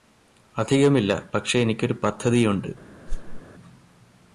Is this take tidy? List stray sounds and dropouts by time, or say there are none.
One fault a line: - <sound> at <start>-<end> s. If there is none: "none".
- whoosh at 3.1-3.4 s